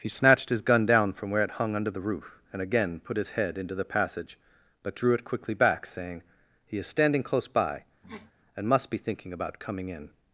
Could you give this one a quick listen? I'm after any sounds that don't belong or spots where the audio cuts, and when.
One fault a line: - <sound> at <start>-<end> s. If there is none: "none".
- sniff at 8.0-8.3 s